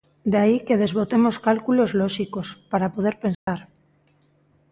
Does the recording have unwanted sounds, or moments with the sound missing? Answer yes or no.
yes